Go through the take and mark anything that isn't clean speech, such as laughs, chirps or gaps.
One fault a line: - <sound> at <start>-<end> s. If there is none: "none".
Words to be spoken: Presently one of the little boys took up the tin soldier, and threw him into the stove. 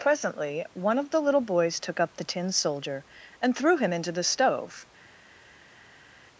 none